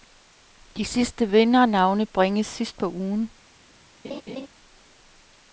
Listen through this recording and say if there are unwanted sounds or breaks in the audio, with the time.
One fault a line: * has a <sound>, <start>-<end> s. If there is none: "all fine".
* has a laugh, 4.0-4.5 s